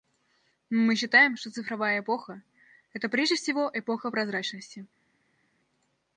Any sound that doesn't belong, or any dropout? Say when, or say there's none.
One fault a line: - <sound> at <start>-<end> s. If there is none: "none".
none